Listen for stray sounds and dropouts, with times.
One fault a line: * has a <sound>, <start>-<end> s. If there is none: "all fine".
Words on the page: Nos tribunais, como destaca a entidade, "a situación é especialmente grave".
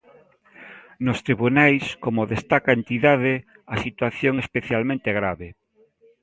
all fine